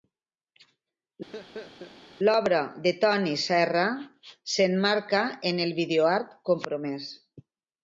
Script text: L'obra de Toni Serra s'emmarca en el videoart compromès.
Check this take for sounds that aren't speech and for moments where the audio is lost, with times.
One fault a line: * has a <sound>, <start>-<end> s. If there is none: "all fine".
* has a laugh, 1.3-2.0 s